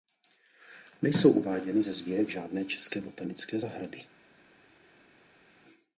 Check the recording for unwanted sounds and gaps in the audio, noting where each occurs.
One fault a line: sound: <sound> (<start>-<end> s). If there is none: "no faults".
no faults